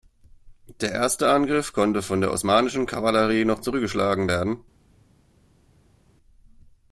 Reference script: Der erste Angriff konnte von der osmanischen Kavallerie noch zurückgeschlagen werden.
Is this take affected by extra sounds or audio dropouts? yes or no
no